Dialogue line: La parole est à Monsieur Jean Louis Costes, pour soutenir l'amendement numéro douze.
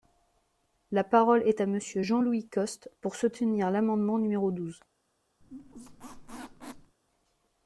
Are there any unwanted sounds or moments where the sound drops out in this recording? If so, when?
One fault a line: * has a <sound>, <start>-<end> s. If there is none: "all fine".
* has a squeak, 5.4-7.0 s